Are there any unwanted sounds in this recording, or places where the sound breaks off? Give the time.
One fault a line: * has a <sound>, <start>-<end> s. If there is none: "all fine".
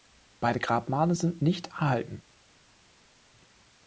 all fine